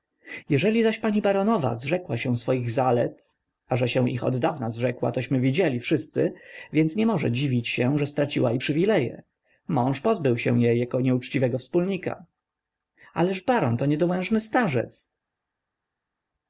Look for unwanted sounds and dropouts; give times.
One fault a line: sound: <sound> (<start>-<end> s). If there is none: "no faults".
no faults